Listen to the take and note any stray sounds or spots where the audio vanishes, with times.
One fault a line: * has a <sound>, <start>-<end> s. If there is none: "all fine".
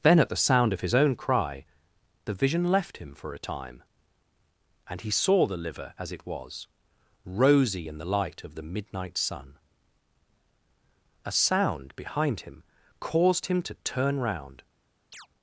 * has a chirp, 15.1-15.3 s